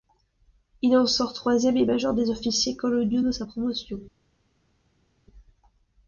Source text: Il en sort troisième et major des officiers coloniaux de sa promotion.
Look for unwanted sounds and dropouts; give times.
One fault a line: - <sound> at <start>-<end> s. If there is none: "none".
none